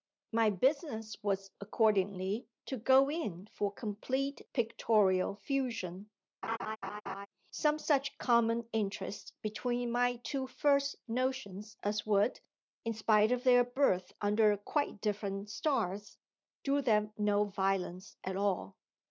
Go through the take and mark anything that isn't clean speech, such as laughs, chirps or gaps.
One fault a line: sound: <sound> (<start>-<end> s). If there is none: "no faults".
sound: laugh (6.4-7.3 s)